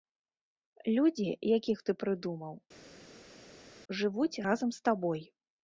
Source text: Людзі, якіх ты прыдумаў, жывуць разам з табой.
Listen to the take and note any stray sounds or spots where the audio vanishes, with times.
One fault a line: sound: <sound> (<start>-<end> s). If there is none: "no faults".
no faults